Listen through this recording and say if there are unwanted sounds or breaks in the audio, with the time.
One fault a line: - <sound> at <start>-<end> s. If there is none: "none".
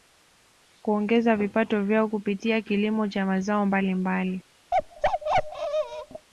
- bark at 4.7-6.3 s